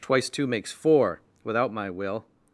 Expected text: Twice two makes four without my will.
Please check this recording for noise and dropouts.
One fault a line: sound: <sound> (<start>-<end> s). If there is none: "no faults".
no faults